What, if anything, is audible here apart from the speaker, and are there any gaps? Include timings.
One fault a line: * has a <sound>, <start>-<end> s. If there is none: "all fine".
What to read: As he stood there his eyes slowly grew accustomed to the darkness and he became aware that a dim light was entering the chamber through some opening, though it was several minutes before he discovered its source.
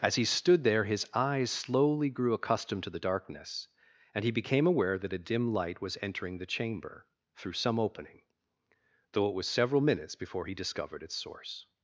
all fine